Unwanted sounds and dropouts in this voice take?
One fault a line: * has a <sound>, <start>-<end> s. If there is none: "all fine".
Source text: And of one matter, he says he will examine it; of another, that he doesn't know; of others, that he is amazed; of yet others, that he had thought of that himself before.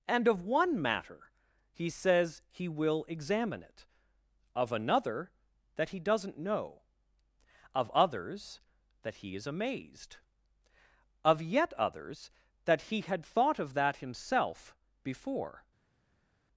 all fine